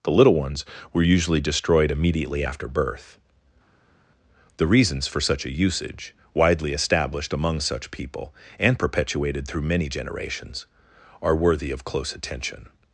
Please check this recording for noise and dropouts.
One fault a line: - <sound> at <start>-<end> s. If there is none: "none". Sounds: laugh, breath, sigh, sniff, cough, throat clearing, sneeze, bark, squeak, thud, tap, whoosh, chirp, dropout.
none